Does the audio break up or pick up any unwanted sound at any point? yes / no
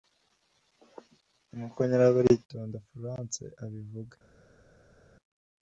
no